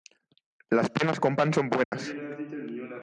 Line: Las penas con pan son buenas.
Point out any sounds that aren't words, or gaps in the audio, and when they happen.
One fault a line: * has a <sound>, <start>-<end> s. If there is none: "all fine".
* has a dropout, 1.8-1.9 s